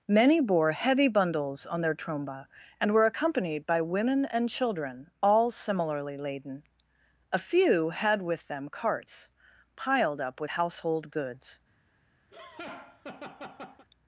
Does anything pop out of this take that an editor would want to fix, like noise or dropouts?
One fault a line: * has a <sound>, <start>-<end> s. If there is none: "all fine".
* has a laugh, 12.3-13.9 s